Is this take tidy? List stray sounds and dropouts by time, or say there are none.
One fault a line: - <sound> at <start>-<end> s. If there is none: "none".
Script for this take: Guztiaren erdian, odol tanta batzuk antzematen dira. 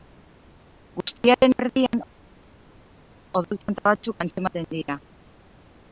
none